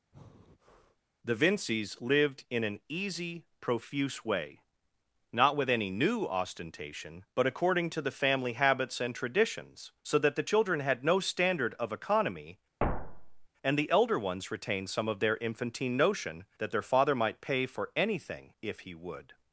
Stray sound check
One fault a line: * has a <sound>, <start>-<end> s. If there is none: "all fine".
* has a breath, 0.1-1.0 s
* has a thud, 12.8-13.5 s